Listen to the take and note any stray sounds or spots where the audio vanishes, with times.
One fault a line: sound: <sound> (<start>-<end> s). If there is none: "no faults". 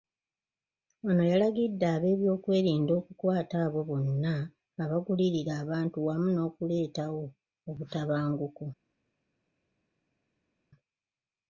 no faults